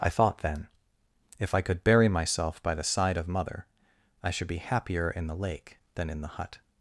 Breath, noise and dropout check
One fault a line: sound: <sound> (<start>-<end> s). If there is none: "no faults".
no faults